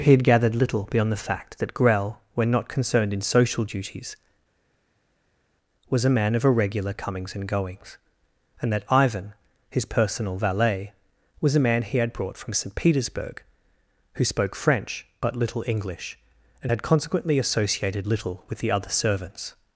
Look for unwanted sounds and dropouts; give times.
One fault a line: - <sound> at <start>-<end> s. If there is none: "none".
none